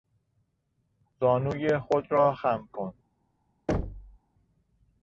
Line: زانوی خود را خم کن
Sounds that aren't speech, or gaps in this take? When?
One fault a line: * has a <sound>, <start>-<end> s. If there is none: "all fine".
* has a thud, 3.7-4.2 s